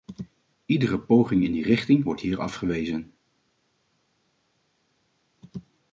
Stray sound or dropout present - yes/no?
no